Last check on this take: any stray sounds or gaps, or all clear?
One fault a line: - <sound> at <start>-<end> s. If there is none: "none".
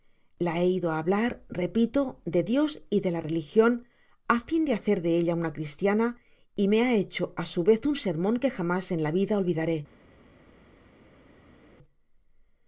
none